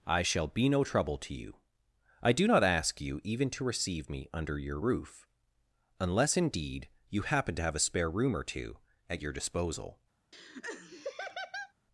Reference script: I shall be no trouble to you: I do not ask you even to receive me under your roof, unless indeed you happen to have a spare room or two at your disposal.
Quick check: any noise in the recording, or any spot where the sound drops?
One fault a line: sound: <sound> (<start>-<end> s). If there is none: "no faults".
sound: laugh (10.3-11.7 s)